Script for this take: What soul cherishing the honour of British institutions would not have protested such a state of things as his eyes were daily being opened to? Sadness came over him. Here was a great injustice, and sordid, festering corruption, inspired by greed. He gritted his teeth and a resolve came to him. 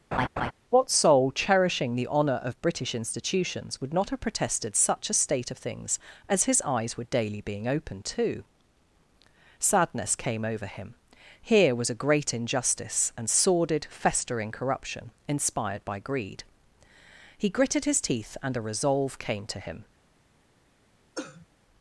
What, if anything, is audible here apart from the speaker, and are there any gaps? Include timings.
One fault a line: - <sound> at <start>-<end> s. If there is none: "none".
- laugh at 0.1-0.5 s
- cough at 21.2-21.5 s